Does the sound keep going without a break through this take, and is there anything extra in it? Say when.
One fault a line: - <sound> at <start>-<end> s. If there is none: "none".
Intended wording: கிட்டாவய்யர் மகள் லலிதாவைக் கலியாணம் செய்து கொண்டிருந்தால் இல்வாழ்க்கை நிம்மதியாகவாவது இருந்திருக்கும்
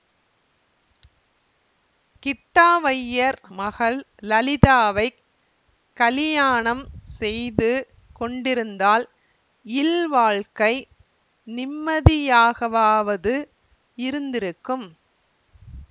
none